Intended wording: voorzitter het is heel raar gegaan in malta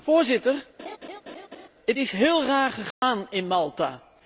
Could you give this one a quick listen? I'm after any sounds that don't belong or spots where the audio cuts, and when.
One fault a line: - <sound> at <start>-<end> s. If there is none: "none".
- laugh at 0.8-1.7 s
- dropout at 2.9-3.0 s